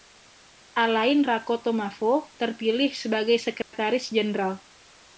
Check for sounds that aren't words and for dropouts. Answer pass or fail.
fail